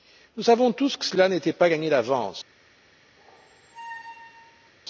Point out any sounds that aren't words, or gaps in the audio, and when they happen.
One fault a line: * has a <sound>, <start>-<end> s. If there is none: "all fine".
* has a squeak, 3.2-4.7 s